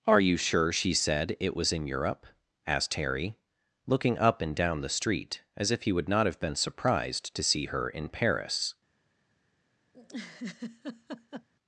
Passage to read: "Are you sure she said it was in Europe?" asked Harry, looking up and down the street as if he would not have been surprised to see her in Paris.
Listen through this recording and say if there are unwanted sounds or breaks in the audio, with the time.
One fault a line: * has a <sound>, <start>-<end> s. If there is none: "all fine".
* has a laugh, 9.9-11.5 s